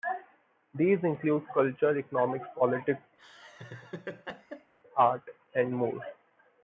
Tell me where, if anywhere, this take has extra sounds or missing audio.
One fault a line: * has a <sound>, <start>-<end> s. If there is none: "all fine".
* has a laugh, 3.2-4.7 s